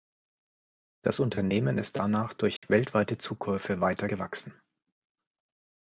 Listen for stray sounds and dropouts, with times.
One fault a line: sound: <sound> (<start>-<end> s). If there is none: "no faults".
sound: dropout (2.6-2.6 s)